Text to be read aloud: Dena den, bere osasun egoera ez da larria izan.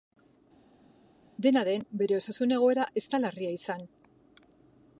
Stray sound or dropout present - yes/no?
no